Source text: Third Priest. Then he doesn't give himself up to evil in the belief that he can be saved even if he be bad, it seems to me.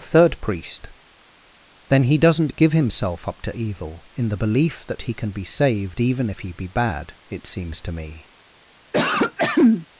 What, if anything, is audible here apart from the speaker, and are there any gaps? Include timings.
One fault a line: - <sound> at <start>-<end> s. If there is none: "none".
- throat clearing at 8.9-9.9 s